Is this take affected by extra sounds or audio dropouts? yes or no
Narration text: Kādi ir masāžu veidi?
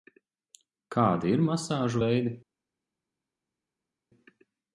no